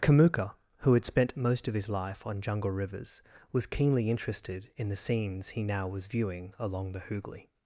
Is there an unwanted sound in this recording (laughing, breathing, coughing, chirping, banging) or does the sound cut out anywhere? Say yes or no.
no